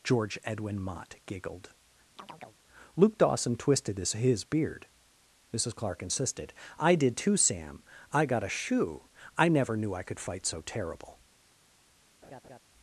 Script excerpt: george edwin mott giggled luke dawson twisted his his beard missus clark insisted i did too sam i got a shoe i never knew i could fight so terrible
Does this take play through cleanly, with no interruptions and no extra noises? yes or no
no